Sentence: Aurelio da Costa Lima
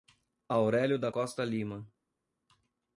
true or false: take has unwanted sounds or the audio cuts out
false